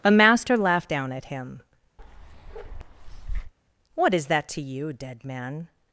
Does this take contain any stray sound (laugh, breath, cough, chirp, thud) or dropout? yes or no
yes